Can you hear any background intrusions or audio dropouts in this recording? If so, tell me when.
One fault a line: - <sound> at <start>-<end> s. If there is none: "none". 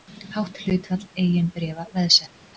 none